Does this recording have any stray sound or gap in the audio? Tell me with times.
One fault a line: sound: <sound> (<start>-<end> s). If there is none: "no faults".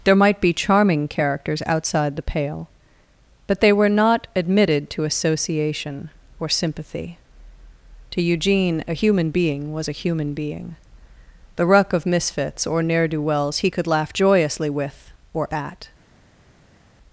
no faults